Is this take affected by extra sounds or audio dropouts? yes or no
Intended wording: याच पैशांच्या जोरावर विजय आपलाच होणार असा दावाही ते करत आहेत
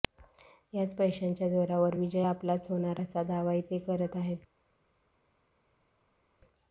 no